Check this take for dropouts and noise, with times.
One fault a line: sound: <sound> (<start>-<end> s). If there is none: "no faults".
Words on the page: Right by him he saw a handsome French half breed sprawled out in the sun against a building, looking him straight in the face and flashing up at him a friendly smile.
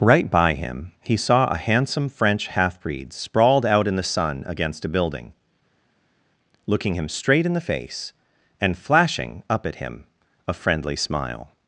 no faults